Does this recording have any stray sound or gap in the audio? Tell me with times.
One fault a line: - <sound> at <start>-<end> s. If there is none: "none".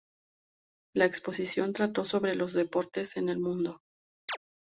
- chirp at 4.3-4.4 s